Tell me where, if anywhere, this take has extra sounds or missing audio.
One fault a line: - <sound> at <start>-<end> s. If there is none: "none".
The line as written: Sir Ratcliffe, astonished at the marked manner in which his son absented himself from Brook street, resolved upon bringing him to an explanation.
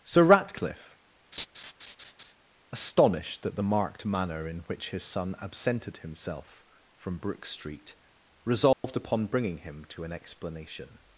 - laugh at 1.3-2.3 s
- dropout at 8.7-8.8 s